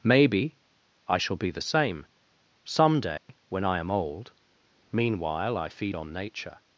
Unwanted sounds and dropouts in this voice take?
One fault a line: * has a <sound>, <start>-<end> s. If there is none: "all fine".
* has a dropout, 3.2-3.3 s